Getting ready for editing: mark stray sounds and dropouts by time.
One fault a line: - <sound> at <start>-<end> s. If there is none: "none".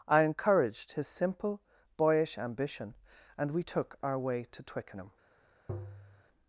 - tap at 5.7-6.2 s